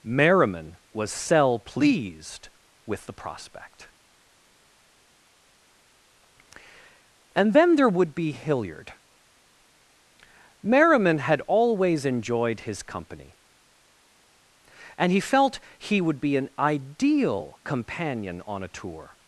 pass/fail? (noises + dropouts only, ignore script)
pass